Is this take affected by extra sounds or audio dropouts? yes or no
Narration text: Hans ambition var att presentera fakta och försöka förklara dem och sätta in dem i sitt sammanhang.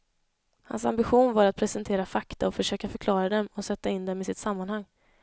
no